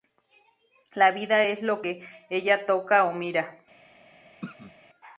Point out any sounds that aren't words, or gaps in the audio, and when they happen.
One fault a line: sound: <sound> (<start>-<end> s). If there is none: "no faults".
sound: throat clearing (4.4-4.7 s)